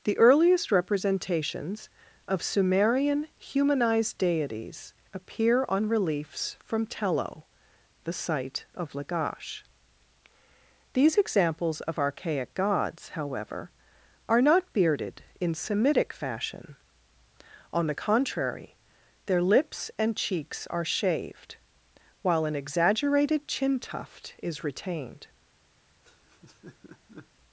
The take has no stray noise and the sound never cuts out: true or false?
false